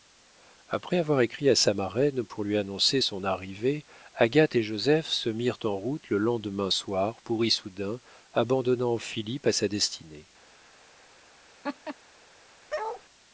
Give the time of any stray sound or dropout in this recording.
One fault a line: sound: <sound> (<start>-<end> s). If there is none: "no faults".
sound: laugh (11.6-12.0 s)
sound: bark (12.7-13.0 s)